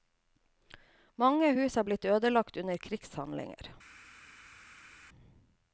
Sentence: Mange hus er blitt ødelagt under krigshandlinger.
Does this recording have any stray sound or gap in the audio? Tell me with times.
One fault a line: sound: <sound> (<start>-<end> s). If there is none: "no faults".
no faults